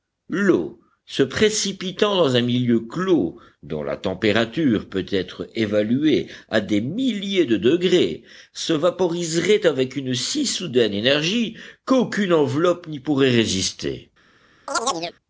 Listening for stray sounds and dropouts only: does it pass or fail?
fail